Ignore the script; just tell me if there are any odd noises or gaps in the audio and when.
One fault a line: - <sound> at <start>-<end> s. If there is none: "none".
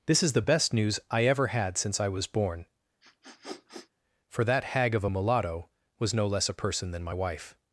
- sniff at 3.0-3.9 s